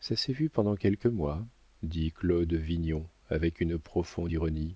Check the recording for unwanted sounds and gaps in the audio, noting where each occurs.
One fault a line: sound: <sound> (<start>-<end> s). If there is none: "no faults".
no faults